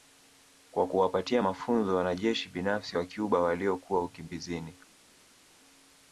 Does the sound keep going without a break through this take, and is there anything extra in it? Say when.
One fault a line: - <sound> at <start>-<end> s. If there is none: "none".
none